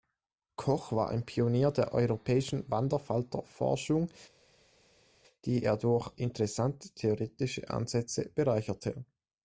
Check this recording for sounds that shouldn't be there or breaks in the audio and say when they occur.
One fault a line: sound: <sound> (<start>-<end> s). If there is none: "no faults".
no faults